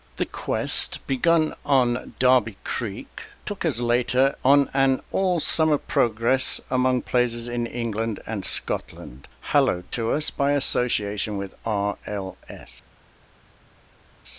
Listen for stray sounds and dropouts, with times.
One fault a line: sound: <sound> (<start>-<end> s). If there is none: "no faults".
no faults